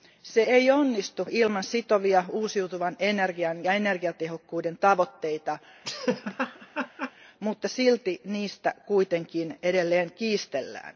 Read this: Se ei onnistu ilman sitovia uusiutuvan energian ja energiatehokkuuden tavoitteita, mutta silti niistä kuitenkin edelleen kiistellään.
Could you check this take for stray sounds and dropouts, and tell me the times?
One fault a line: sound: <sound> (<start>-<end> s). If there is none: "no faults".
sound: laugh (5.8-7.1 s)